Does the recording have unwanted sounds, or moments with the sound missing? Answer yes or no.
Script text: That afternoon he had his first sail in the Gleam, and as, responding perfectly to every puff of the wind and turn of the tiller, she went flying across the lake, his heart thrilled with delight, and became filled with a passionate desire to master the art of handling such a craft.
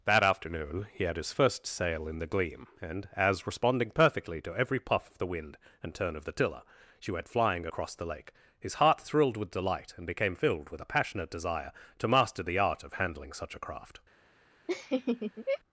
yes